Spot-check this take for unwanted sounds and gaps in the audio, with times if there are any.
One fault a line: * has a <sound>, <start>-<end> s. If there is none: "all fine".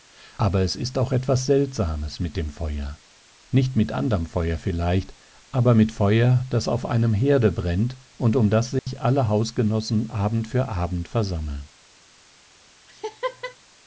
* has a dropout, 8.8-8.9 s
* has a laugh, 12.9-13.6 s